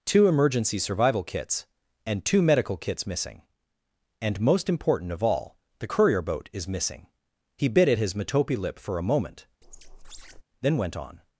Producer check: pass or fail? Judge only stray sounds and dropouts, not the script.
fail